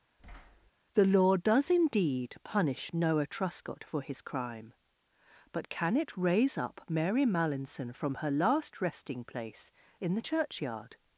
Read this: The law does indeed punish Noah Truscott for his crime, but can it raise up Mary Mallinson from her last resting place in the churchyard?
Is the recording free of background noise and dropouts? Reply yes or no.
no